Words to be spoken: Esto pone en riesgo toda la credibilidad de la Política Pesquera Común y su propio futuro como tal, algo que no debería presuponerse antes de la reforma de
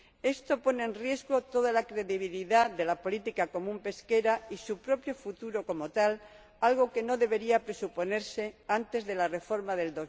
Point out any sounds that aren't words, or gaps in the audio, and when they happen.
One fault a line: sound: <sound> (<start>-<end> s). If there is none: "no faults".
no faults